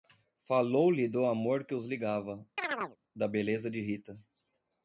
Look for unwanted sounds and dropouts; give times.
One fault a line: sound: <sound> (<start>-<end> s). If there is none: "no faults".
sound: chirp (2.6-3.0 s)